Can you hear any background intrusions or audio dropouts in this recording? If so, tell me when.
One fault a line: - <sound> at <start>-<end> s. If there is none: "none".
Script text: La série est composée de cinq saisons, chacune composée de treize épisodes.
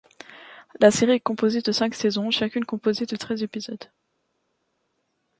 none